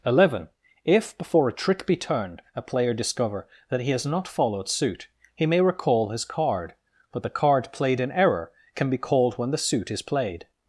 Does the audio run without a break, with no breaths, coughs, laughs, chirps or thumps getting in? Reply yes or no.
yes